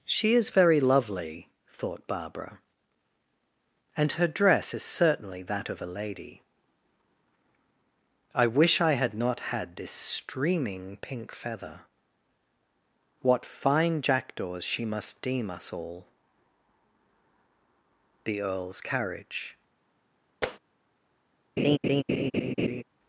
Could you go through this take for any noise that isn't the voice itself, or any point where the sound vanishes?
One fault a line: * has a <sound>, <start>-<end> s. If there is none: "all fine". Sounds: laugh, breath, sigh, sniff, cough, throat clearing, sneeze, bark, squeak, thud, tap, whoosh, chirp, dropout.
* has a tap, 20.4-20.6 s
* has a laugh, 21.6-22.8 s